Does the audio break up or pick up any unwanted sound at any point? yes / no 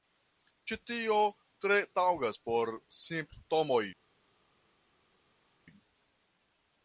no